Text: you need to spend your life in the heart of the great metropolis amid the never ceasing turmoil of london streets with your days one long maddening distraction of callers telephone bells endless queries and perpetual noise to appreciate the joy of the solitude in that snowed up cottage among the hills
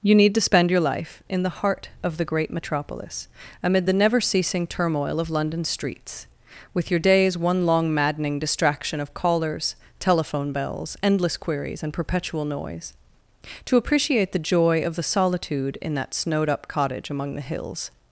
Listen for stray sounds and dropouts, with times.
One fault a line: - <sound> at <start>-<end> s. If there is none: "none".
none